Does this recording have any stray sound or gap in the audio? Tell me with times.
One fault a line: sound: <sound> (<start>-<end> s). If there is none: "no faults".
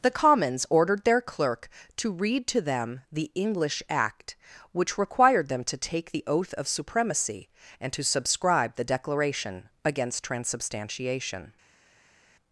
no faults